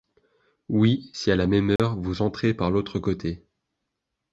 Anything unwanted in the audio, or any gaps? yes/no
yes